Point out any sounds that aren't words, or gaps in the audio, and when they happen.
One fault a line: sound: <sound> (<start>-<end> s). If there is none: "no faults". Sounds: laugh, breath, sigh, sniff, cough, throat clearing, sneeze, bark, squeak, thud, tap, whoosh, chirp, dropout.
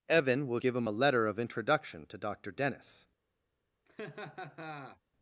sound: laugh (3.9-5.0 s)